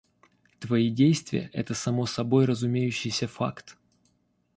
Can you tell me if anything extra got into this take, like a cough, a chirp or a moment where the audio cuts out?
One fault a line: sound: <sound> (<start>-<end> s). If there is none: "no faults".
no faults